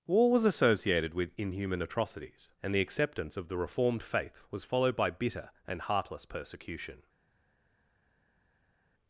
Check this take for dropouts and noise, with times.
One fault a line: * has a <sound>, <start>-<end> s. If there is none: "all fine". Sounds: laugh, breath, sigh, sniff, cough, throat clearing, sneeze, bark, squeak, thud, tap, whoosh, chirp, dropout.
all fine